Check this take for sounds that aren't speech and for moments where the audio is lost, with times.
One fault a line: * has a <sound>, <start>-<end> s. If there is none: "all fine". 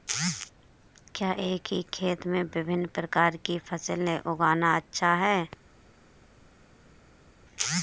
all fine